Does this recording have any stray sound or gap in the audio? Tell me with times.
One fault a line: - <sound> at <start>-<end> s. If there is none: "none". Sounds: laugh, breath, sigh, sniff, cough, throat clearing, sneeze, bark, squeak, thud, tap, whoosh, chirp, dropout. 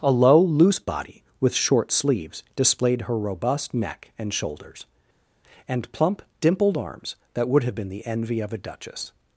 none